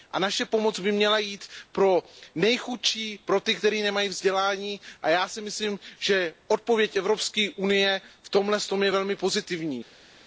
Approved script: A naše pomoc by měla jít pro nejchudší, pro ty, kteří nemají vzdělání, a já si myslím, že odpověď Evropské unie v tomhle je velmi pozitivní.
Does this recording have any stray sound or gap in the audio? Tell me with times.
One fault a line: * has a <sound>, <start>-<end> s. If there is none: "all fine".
all fine